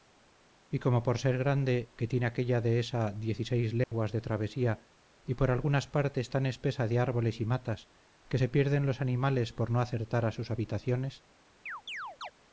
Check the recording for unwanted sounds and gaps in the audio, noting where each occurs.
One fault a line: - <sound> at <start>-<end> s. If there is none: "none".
- dropout at 3.8-3.9 s
- chirp at 11.7-12.3 s